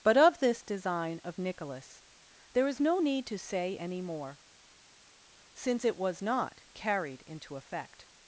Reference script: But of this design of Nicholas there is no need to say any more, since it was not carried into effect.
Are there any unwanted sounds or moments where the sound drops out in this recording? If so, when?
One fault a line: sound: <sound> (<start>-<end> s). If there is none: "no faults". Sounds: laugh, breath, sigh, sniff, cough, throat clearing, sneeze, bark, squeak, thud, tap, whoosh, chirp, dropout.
no faults